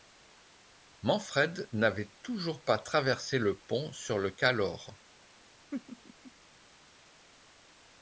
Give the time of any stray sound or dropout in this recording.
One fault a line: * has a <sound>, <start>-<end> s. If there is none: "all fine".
* has a laugh, 5.7-6.3 s